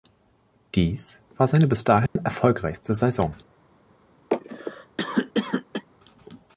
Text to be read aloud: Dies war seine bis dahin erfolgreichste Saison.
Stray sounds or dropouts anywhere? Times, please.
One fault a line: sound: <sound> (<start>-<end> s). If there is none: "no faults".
sound: dropout (2.1-2.2 s)
sound: cough (4.3-5.8 s)